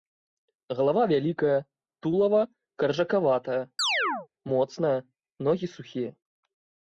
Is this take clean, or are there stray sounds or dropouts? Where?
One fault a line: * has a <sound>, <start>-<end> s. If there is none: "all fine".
* has a chirp, 3.8-4.3 s